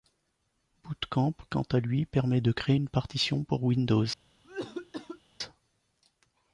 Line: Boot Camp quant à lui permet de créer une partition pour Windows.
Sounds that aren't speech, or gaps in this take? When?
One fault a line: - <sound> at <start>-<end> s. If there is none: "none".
- cough at 4.4-5.2 s